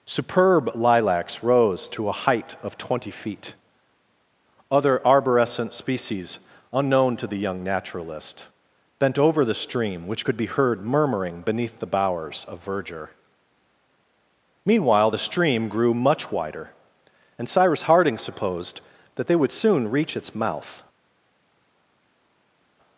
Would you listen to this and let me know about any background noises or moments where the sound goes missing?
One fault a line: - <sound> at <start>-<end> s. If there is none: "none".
none